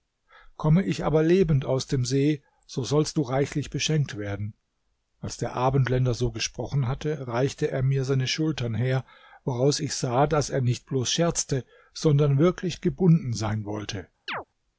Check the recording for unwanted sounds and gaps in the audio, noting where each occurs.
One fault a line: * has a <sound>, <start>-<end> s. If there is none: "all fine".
* has a chirp, 14.3-14.4 s